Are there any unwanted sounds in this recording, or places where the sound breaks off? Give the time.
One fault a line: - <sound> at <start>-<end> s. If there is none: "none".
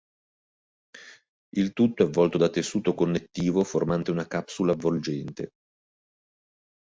none